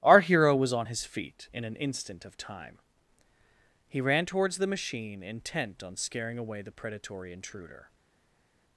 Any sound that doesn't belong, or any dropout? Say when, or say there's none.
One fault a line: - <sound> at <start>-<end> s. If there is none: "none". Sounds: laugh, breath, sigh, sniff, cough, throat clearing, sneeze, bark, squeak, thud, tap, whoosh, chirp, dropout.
none